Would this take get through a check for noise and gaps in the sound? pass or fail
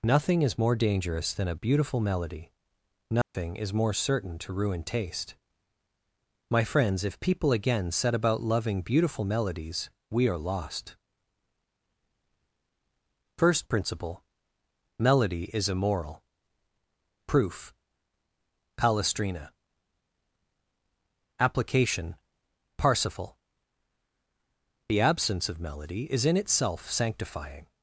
fail